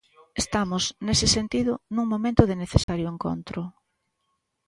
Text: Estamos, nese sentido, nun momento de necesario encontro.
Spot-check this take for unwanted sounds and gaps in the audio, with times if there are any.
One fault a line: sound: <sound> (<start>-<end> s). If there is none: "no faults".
sound: dropout (2.8-2.9 s)